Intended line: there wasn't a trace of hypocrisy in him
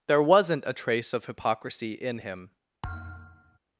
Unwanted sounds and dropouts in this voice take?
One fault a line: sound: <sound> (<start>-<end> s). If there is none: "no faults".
sound: thud (2.8-3.6 s)